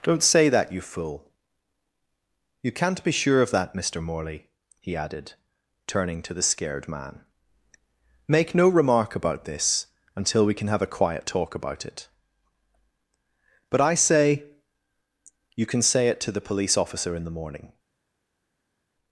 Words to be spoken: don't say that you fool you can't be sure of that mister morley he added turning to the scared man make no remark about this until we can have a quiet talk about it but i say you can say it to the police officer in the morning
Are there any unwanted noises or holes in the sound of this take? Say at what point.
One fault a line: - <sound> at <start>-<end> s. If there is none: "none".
none